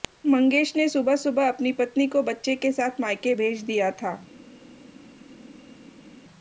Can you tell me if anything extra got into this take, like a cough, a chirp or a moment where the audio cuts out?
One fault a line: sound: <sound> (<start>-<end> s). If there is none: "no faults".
no faults